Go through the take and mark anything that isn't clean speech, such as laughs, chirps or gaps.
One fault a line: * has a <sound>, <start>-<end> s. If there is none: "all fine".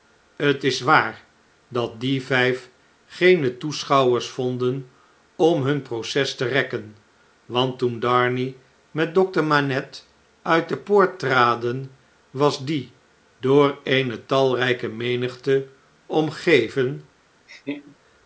* has a laugh, 17.5-18.0 s